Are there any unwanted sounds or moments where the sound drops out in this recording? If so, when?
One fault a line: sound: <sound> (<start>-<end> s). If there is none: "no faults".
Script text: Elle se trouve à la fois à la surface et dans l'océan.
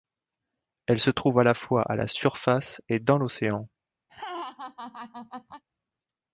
sound: laugh (4.1-5.6 s)